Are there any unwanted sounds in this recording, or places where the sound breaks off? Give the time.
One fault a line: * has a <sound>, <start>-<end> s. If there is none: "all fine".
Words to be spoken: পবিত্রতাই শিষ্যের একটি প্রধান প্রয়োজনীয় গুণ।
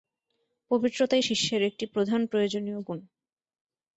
all fine